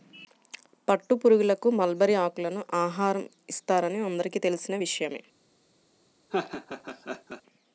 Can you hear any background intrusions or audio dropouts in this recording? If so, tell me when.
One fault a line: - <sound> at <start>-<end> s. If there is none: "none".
- laugh at 6.3-7.4 s